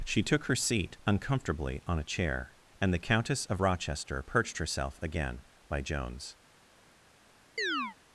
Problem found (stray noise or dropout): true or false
true